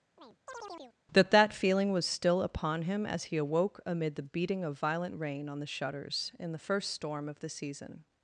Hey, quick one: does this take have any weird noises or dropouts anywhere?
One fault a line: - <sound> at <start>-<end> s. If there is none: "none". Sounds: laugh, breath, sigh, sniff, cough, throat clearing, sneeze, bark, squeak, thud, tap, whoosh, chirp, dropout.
- chirp at 0.2-1.0 s